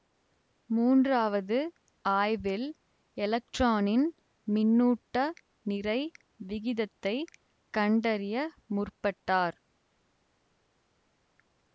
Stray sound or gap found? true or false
false